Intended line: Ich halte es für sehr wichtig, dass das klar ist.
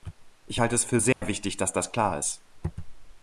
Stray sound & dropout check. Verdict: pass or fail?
fail